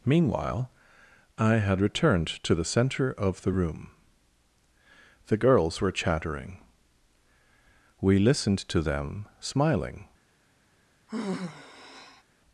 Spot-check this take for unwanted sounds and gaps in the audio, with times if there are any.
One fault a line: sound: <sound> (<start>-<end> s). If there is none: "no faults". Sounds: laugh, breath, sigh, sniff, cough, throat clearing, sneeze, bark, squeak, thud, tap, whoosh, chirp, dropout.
sound: sigh (11.1-12.2 s)